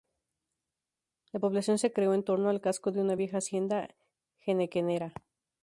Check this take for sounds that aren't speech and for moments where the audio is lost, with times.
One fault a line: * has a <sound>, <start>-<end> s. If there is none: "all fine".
all fine